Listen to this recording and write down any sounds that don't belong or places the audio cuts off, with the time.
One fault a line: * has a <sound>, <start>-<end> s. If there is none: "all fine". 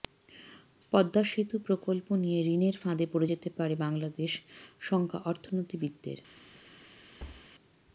* has a thud, 7.2-7.5 s